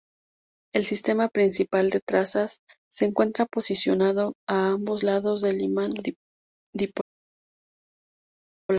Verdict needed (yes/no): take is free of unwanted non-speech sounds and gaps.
yes